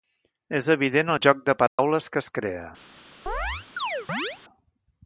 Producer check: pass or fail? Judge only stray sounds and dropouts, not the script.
fail